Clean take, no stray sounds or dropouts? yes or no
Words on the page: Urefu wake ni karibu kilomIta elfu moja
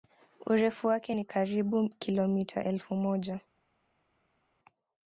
yes